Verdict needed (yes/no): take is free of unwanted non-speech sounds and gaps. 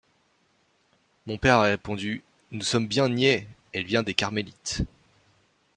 yes